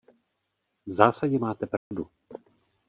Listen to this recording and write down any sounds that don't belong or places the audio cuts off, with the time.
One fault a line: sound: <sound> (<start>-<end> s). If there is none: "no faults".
sound: dropout (1.8-1.9 s)